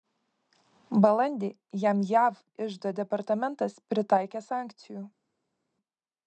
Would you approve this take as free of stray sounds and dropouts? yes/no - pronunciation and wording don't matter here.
yes